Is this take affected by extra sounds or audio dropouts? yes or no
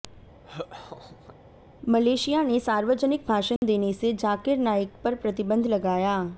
yes